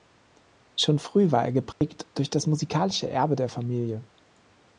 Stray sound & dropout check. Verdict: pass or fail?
fail